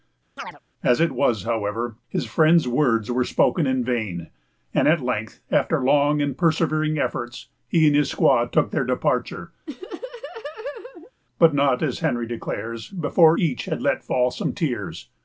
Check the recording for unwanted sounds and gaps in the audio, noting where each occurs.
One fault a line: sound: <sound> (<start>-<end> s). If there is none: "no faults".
sound: chirp (0.4-0.6 s)
sound: laugh (9.7-11.1 s)